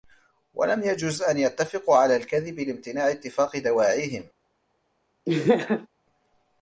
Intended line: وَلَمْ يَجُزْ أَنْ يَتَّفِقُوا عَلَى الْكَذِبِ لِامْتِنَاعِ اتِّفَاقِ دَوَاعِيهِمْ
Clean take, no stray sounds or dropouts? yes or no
no